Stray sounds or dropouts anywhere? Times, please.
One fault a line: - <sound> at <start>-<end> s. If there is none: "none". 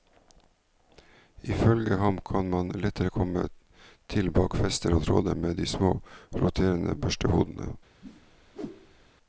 - whoosh at 8.0-9.1 s